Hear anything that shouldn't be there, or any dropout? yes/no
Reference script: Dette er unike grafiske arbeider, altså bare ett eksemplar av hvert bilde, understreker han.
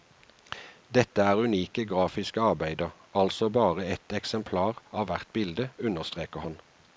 no